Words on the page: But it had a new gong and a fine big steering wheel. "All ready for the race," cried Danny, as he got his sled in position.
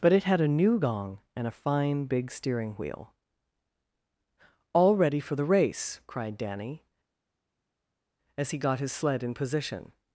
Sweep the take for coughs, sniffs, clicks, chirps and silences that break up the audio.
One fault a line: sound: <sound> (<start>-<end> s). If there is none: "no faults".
no faults